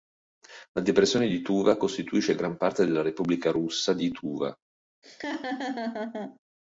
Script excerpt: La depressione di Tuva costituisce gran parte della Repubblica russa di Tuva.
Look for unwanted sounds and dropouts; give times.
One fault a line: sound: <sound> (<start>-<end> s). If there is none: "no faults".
sound: laugh (5.0-6.4 s)